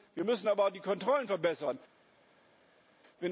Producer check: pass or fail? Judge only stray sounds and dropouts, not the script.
pass